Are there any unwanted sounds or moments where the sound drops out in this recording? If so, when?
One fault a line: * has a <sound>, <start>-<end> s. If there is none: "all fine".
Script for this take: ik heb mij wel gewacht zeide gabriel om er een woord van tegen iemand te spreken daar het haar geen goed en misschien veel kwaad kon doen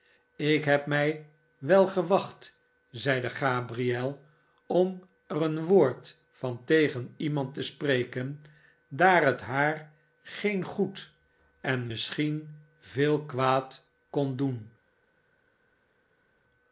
all fine